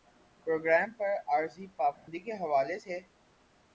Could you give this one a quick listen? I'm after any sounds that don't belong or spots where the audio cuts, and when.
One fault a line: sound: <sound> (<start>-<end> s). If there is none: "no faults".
sound: dropout (1.9-2.1 s)